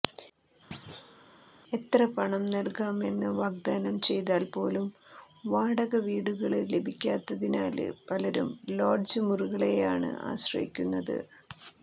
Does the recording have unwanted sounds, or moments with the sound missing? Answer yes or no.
yes